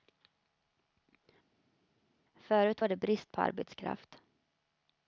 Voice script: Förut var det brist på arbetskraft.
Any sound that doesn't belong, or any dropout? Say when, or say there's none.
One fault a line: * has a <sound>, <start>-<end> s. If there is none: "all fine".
all fine